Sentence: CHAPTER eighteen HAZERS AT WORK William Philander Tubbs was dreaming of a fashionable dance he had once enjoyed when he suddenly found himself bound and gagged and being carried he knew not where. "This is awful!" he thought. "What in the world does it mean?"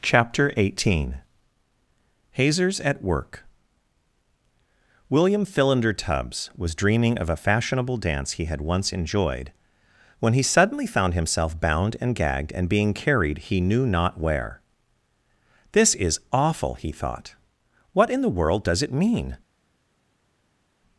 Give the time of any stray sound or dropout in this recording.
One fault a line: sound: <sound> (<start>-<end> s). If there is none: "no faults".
no faults